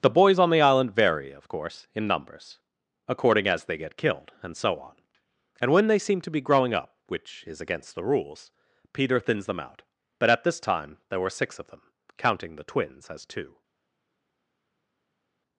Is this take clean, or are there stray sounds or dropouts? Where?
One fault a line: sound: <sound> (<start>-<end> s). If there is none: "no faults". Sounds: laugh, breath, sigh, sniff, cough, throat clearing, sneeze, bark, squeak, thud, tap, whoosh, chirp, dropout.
no faults